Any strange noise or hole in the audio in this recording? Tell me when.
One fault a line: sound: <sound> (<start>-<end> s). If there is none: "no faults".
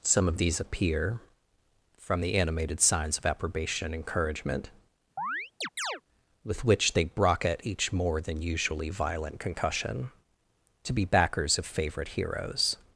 sound: chirp (5.2-6.0 s)